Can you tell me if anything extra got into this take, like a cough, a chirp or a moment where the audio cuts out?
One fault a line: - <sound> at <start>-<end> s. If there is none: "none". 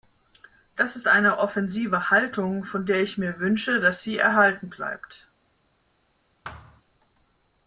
- thud at 6.4-6.8 s